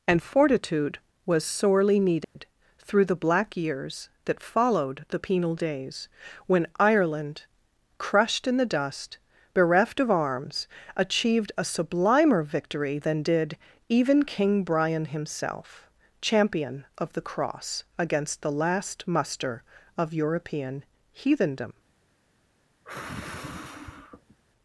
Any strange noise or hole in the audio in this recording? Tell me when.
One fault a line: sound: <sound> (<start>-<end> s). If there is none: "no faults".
sound: dropout (2.2-2.4 s)
sound: sigh (22.8-24.4 s)